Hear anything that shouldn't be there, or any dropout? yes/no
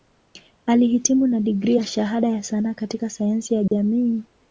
yes